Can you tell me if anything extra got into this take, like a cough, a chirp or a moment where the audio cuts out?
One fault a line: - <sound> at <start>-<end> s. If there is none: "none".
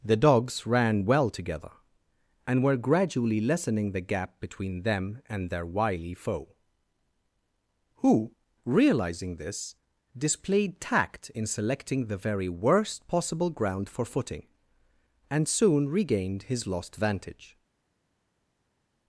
none